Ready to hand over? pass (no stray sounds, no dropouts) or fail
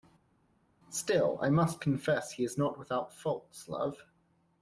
pass